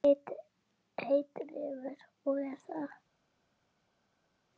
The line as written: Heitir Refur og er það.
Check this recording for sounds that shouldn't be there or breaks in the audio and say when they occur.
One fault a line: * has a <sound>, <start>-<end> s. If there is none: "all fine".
all fine